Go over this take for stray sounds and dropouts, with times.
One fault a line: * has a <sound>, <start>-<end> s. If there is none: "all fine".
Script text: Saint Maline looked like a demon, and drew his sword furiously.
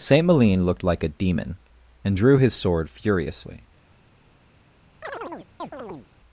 * has a chirp, 5.0-6.1 s